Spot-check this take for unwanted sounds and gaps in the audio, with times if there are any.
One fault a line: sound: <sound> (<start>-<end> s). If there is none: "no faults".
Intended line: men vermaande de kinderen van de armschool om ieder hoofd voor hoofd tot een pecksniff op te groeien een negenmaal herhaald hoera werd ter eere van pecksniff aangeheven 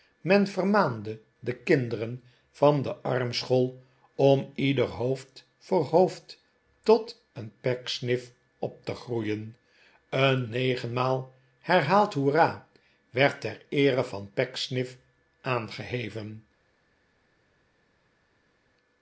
no faults